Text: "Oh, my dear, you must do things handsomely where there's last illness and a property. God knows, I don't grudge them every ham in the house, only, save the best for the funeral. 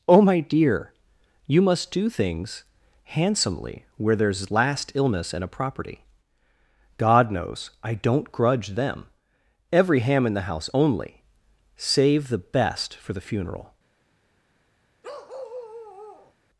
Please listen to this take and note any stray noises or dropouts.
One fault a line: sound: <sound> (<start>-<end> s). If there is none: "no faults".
sound: bark (15.0-16.3 s)